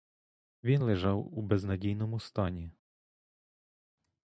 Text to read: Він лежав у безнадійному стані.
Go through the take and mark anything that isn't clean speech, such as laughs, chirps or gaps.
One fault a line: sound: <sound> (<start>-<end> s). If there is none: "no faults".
no faults